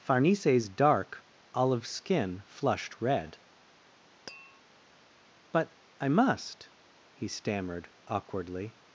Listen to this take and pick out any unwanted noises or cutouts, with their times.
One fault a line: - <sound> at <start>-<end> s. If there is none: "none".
- tap at 4.3-4.6 s